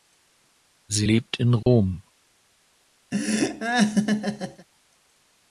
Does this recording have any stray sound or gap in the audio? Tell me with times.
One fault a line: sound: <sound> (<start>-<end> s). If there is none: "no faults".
sound: dropout (1.6-1.7 s)
sound: laugh (3.1-4.7 s)